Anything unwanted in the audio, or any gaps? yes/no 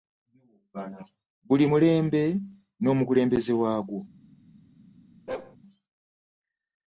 yes